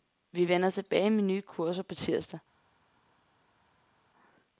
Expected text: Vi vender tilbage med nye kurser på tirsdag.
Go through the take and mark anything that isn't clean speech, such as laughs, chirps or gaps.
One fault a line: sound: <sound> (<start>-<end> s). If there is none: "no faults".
no faults